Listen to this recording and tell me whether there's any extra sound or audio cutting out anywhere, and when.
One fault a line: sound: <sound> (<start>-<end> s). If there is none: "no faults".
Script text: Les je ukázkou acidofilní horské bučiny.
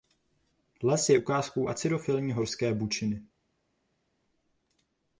no faults